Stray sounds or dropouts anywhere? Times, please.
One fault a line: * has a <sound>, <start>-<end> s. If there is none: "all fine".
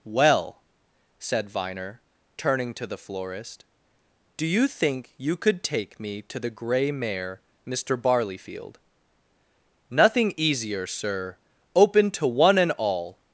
all fine